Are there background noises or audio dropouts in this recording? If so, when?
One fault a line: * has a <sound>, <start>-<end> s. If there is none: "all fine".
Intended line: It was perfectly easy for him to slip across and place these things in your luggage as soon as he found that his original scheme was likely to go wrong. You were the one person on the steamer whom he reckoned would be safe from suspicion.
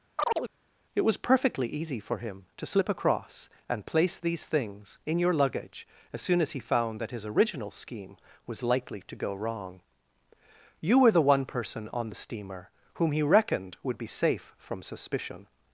* has a chirp, 0.2-0.5 s